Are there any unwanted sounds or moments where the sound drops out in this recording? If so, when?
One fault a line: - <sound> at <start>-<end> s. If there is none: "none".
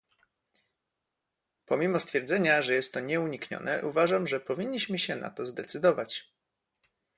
none